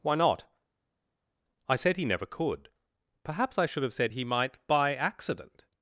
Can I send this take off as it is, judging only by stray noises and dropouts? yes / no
yes